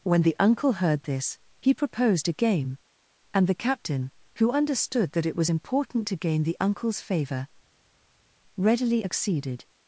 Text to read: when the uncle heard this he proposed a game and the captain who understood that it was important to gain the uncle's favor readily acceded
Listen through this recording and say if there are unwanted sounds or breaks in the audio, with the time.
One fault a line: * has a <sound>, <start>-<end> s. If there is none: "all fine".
all fine